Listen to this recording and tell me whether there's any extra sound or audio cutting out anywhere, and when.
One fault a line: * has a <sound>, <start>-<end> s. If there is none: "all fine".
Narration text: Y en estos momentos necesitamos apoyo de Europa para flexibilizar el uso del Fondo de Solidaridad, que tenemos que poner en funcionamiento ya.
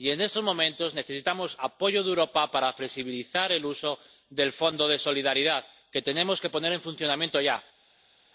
all fine